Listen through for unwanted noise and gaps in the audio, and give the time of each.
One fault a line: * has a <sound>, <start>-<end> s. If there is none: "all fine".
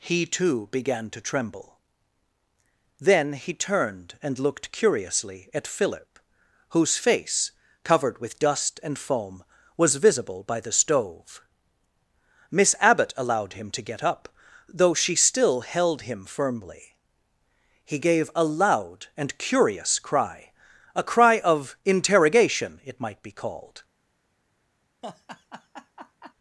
* has a laugh, 25.0-26.3 s